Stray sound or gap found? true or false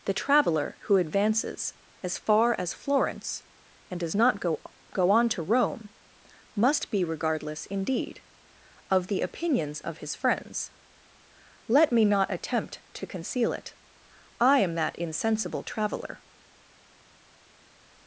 false